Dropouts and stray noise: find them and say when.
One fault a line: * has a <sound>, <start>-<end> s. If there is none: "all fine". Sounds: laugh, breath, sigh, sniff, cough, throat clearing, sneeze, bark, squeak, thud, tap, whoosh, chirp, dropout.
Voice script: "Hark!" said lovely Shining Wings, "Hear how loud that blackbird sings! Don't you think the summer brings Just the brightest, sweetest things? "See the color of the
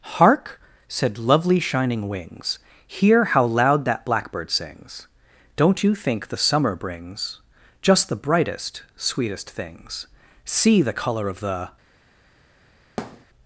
* has a thud, 13.0-13.3 s